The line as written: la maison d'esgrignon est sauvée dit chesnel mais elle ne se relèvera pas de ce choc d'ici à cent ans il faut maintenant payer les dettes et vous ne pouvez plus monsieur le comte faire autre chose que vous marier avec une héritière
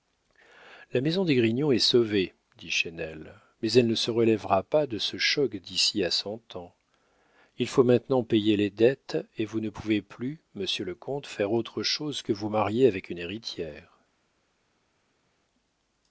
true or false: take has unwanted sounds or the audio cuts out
false